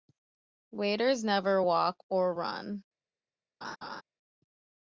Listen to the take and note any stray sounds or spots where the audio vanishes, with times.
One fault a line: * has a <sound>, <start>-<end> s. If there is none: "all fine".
* has a laugh, 3.6-4.0 s